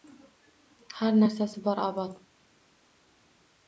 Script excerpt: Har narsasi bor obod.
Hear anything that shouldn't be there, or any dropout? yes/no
no